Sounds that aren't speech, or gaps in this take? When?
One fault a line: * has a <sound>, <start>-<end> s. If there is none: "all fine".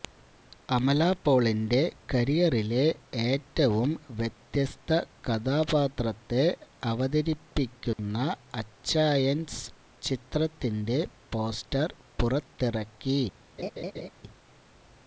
* has a dropout, 7.9-8.0 s
* has a laugh, 13.6-14.1 s